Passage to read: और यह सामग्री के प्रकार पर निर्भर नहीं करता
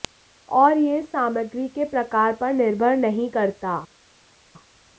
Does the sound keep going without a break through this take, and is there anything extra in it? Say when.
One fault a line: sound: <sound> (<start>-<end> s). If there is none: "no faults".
no faults